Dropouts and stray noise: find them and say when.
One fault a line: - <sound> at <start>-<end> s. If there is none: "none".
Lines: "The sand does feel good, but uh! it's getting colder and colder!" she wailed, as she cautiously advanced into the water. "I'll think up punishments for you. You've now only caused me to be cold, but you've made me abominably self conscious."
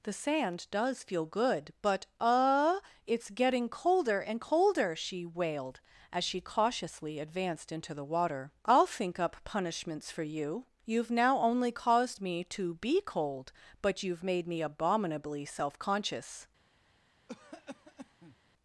- cough at 17.3-18.4 s